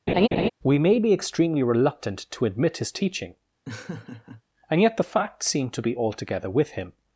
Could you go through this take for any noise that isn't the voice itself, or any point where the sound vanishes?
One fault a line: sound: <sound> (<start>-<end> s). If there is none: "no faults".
sound: laugh (0.1-0.5 s)
sound: laugh (3.7-4.4 s)